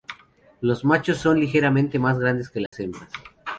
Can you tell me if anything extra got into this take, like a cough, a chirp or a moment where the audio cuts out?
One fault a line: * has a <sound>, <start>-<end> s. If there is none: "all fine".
* has a dropout, 2.7-2.7 s